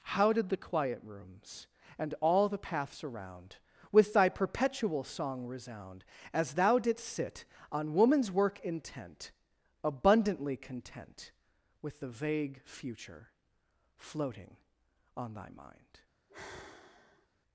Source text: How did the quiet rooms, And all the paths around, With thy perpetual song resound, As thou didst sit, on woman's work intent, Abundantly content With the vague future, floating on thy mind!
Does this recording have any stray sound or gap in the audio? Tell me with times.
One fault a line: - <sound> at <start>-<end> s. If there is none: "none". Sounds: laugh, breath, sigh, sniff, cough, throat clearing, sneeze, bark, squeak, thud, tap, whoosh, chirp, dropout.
- sigh at 16.3-17.3 s